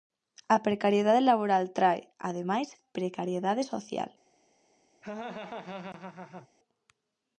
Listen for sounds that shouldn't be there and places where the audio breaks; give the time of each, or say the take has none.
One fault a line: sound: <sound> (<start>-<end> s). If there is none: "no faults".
sound: laugh (5.0-6.5 s)